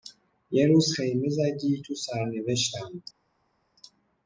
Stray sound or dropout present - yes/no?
no